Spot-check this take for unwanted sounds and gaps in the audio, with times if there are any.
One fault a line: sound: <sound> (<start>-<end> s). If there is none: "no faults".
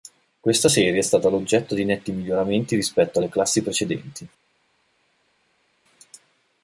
no faults